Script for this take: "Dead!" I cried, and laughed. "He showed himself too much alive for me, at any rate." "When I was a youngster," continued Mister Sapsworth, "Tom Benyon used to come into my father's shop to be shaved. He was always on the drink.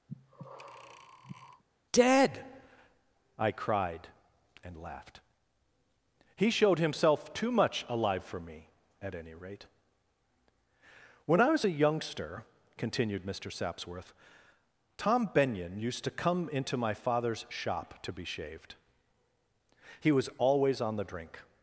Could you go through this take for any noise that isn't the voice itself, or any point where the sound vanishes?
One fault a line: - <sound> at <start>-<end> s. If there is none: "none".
- breath at 0.1-1.6 s